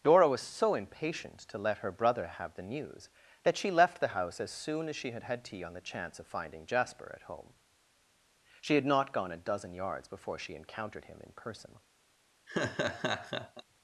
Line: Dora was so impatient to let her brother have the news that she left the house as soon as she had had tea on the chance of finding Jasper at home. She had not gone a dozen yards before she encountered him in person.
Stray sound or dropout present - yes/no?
yes